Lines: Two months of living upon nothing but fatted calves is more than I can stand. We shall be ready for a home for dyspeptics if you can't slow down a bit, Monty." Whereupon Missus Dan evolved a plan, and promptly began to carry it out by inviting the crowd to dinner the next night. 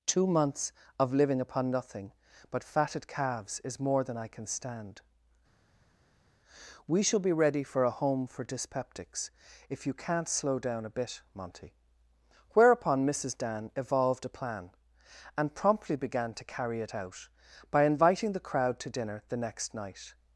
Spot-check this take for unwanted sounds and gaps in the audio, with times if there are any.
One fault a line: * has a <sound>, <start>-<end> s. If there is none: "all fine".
all fine